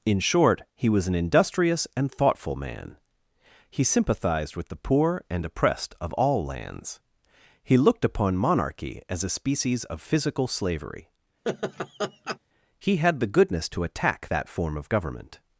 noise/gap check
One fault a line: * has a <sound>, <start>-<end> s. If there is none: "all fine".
* has a laugh, 11.4-12.4 s